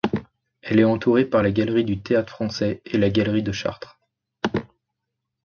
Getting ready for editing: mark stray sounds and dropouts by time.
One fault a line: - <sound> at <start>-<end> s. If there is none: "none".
none